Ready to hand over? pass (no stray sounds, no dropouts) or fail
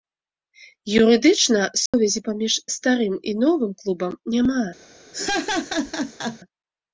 fail